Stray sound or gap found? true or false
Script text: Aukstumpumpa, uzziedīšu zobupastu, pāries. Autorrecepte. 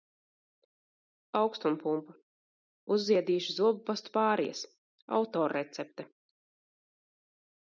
false